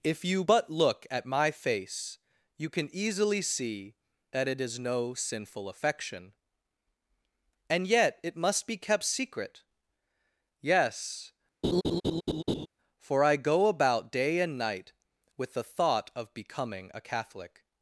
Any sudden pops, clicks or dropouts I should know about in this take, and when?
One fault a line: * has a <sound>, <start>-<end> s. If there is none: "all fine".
* has a laugh, 11.6-12.7 s